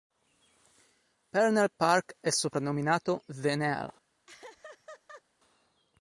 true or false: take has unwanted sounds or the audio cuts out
true